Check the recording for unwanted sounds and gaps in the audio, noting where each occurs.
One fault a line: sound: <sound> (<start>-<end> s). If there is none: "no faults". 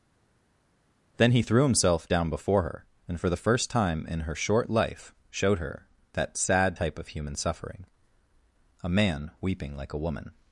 no faults